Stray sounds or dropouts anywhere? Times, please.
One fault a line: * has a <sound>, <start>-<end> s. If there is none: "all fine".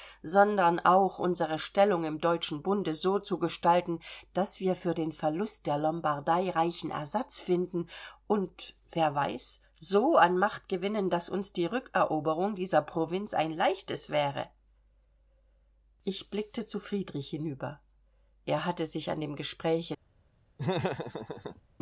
* has a laugh, 20.6-21.6 s